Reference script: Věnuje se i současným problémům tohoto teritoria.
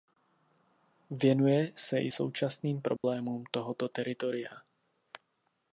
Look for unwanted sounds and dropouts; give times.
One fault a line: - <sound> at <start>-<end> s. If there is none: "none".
- dropout at 3.0-3.0 s